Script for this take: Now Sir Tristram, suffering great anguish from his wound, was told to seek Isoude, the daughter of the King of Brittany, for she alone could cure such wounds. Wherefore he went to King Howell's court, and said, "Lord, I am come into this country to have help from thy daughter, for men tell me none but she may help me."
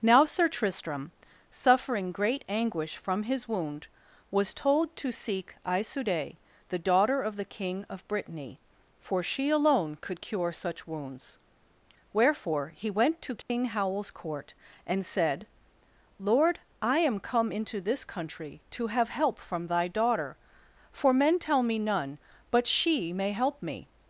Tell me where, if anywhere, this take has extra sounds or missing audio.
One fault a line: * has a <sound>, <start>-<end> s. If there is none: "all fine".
* has a dropout, 13.4-13.5 s